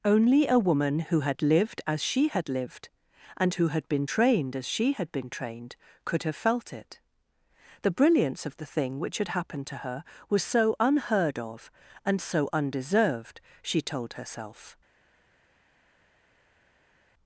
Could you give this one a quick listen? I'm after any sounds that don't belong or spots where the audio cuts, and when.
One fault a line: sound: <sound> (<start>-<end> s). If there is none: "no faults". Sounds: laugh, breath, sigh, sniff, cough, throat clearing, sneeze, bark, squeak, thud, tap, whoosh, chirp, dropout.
no faults